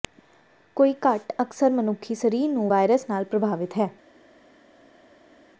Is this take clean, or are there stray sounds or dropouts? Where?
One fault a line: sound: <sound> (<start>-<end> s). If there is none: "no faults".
no faults